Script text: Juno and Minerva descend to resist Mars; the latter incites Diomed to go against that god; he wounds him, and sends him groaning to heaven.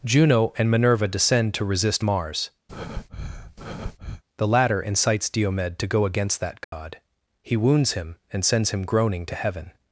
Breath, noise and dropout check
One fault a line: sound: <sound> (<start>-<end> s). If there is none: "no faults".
sound: breath (2.7-4.2 s)
sound: dropout (6.6-6.7 s)